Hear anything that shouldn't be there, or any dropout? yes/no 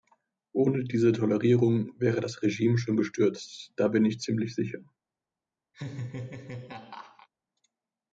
yes